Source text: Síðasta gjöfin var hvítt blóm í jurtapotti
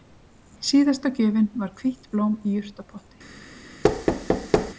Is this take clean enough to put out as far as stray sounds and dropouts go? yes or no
no